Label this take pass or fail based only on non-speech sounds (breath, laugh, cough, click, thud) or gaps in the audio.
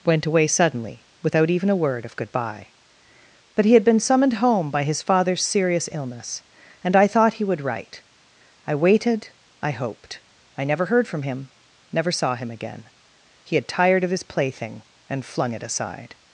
pass